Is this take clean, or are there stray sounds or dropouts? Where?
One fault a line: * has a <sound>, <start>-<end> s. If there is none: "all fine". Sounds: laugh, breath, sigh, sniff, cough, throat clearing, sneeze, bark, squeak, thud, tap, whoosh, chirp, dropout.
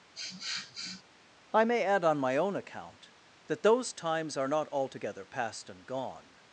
* has a sniff, 0.1-1.0 s